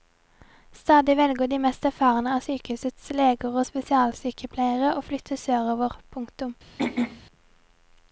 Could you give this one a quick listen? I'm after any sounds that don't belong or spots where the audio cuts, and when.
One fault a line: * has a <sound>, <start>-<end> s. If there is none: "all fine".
* has a throat clearing, 6.8-7.2 s